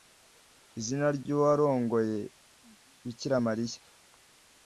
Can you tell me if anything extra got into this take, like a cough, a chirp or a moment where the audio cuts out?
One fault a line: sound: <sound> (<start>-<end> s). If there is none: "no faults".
no faults